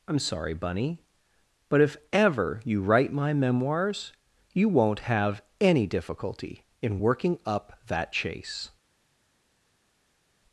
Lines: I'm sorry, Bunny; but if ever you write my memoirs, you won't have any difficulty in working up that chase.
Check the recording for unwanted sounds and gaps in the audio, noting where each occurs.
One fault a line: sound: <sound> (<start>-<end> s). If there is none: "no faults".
no faults